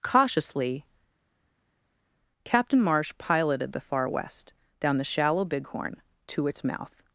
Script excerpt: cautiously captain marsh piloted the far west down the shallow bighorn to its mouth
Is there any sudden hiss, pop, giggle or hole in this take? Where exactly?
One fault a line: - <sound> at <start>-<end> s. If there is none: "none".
none